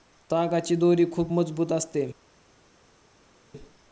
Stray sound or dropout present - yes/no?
no